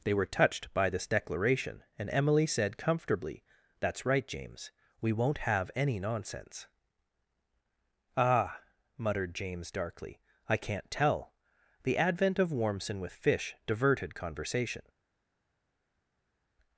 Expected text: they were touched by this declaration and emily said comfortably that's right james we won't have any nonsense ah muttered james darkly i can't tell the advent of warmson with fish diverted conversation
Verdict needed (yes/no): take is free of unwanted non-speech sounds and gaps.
yes